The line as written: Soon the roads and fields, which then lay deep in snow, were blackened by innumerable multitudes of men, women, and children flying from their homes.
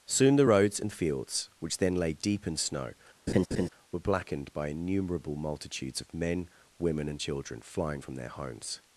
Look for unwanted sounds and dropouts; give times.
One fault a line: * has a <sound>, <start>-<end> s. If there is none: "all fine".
* has a laugh, 3.3-3.7 s